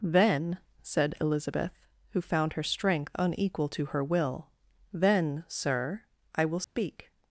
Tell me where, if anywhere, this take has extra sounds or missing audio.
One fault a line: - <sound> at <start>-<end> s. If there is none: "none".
- dropout at 6.6-6.8 s